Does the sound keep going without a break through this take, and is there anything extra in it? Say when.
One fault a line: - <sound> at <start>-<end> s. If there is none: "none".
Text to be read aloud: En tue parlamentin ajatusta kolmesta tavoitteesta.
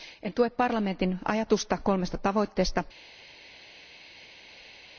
none